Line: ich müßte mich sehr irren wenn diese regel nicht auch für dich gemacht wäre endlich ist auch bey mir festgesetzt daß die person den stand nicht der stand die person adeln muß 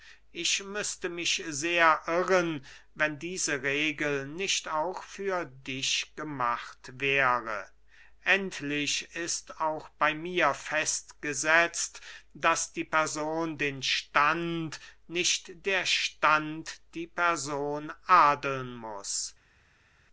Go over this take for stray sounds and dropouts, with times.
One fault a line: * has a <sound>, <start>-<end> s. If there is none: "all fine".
all fine